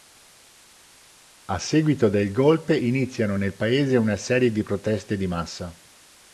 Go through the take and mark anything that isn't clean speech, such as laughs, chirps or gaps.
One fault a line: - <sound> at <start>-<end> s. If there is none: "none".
none